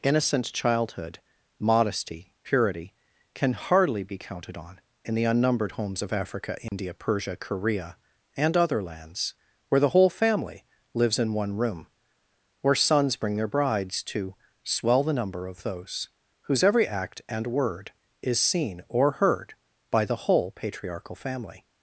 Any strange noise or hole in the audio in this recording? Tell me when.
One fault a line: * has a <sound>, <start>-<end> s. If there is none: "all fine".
* has a dropout, 6.7-6.7 s